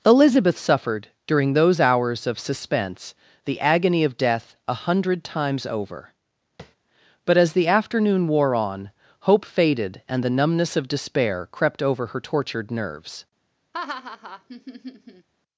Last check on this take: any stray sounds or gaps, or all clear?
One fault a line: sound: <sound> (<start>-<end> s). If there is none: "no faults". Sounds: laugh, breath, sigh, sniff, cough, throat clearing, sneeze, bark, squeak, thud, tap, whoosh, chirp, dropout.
sound: tap (6.6-6.8 s)
sound: laugh (13.7-15.3 s)